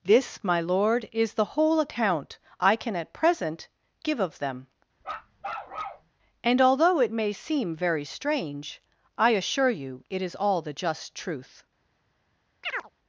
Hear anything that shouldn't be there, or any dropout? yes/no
yes